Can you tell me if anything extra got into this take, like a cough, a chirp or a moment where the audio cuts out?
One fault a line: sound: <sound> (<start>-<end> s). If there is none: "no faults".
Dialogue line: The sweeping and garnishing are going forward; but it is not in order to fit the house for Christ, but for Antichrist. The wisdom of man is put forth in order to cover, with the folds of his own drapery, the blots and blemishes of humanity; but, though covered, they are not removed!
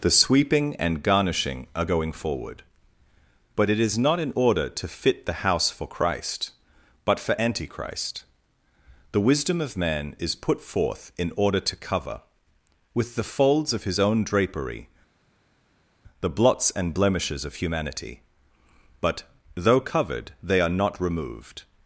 no faults